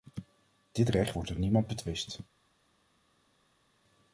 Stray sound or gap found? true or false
false